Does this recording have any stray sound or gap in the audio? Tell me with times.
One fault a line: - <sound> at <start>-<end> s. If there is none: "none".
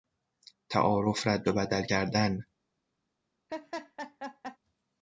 - laugh at 3.5-4.6 s